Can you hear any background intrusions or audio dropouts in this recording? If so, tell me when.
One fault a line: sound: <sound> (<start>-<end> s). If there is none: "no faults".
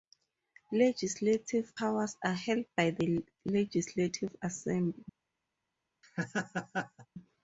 sound: laugh (6.0-7.1 s)